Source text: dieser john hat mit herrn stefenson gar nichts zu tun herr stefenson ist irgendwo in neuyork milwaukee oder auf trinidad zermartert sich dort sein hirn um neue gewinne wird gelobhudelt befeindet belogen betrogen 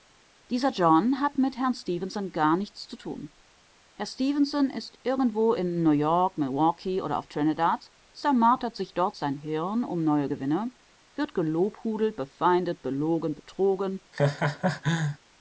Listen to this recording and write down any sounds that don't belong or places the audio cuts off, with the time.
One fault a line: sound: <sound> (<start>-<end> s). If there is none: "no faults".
sound: laugh (14.1-15.2 s)